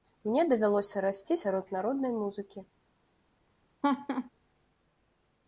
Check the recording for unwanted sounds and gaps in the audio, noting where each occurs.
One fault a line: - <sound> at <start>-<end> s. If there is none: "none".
- laugh at 3.8-4.3 s